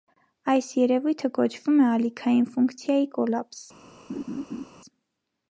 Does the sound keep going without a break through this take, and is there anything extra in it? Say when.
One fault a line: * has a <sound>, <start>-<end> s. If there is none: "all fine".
* has a laugh, 4.1-4.7 s